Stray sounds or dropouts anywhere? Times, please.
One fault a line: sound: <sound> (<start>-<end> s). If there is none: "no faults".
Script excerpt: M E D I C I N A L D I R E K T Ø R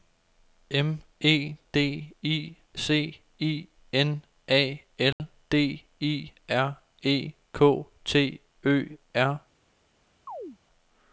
sound: dropout (5.1-5.2 s)
sound: chirp (10.3-10.6 s)